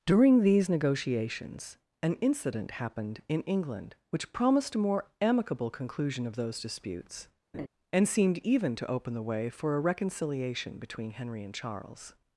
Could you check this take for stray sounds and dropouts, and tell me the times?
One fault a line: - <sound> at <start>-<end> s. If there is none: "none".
- laugh at 7.5-7.7 s